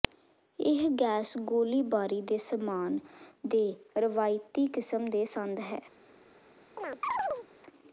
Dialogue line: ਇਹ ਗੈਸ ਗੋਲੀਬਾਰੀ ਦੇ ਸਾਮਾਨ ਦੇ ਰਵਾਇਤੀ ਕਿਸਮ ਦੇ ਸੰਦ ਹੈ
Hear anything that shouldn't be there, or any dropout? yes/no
yes